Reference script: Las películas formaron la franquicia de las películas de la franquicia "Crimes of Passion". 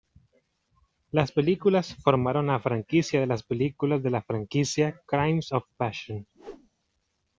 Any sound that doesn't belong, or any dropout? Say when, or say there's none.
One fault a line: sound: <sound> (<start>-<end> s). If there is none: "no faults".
sound: whoosh (6.3-6.7 s)